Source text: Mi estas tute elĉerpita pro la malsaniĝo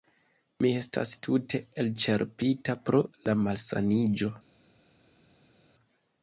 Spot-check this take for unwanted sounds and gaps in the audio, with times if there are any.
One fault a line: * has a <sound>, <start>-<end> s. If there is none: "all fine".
all fine